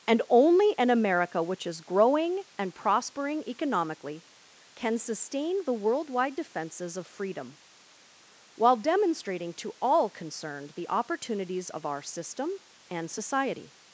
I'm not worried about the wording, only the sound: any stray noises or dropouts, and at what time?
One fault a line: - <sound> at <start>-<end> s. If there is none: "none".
none